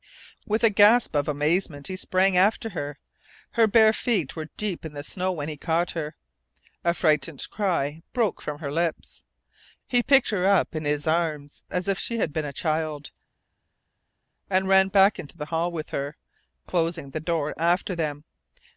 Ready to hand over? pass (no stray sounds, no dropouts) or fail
pass